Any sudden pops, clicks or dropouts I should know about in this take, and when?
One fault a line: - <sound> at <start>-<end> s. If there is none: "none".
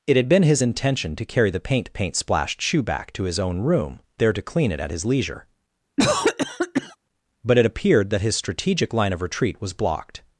- cough at 6.0-7.0 s